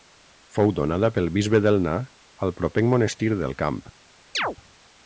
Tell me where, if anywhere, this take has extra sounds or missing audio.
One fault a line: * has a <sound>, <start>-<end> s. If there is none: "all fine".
* has a chirp, 4.3-4.6 s